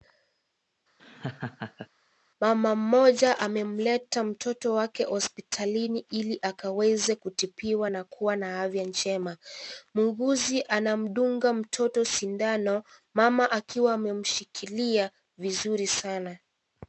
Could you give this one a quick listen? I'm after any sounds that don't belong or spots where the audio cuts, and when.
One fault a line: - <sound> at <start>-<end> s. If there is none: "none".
- laugh at 1.0-1.9 s